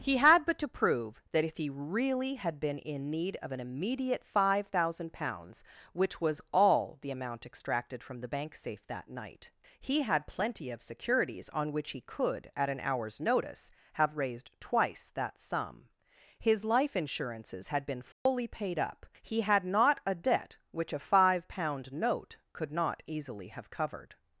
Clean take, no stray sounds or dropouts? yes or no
no